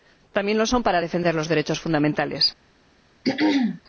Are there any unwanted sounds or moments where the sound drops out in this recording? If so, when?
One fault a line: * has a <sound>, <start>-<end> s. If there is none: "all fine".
* has a throat clearing, 3.2-3.8 s